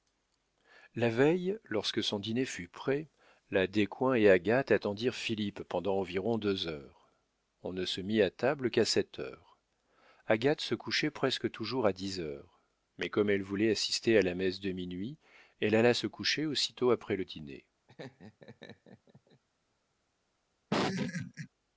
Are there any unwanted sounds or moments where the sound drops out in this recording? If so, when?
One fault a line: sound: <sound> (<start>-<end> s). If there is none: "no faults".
sound: laugh (17.9-19.4 s)
sound: laugh (20.7-21.5 s)